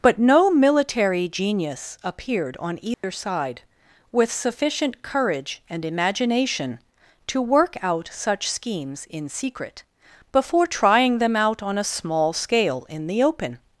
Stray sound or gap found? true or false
true